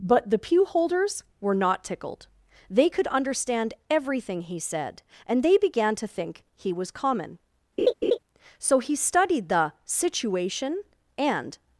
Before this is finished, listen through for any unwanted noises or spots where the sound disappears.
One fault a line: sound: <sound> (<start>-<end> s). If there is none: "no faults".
sound: laugh (7.8-8.2 s)